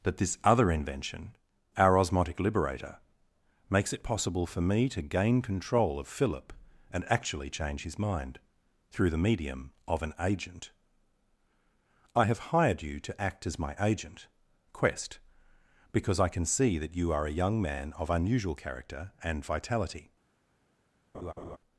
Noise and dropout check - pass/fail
fail